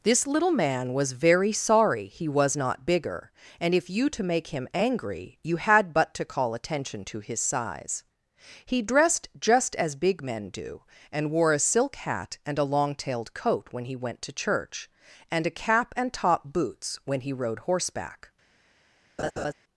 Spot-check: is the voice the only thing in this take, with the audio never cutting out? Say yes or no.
no